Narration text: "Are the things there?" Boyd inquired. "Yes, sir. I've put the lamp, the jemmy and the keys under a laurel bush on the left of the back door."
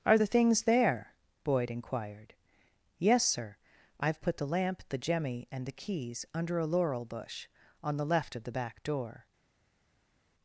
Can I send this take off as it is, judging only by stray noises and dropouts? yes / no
yes